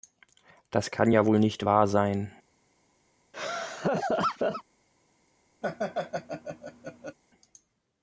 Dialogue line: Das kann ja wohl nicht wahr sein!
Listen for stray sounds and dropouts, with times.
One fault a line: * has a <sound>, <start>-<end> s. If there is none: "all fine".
* has a laugh, 3.3-4.6 s
* has a laugh, 5.6-7.2 s